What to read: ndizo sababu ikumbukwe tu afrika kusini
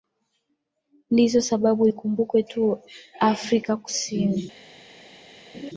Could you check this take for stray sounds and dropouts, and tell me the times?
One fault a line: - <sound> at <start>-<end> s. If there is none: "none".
- laugh at 5.5-5.7 s